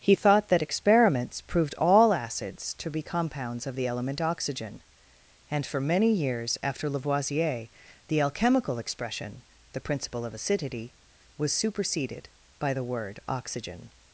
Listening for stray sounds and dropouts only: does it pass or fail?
pass